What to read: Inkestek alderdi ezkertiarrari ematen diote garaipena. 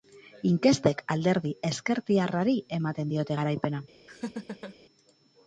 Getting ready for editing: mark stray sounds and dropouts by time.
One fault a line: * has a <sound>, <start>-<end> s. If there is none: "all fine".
* has a laugh, 4.1-4.8 s